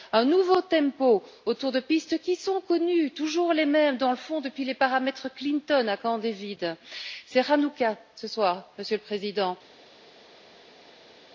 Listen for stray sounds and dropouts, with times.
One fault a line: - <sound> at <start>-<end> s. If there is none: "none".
none